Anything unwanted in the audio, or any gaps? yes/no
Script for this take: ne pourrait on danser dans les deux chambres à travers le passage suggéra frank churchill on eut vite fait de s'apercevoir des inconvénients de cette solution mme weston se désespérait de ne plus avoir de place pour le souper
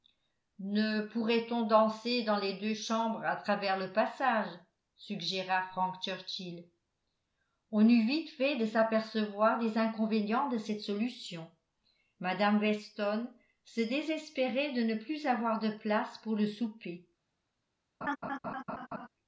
yes